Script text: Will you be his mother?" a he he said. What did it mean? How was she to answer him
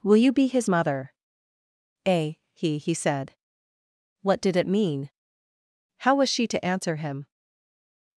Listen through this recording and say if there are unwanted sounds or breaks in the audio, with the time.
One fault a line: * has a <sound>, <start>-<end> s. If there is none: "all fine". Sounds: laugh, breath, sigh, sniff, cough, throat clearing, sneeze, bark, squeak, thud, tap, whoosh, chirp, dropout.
all fine